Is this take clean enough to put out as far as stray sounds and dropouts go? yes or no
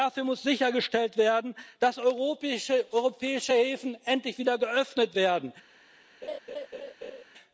no